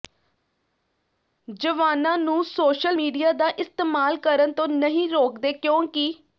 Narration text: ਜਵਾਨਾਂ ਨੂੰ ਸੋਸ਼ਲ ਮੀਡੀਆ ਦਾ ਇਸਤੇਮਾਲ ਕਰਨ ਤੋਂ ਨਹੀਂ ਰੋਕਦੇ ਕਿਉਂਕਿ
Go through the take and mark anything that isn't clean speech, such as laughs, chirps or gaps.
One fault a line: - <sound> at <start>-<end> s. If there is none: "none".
none